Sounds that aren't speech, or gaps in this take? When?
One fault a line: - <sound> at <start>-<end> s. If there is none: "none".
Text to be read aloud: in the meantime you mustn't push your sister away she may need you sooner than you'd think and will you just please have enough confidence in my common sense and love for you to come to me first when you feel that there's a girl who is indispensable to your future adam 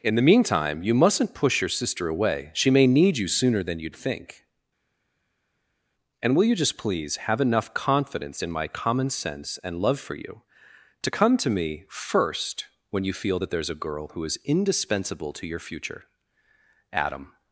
none